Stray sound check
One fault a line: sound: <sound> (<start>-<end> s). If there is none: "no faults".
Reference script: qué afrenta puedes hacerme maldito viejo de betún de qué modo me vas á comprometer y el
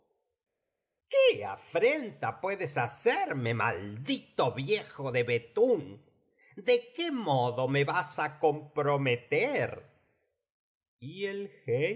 no faults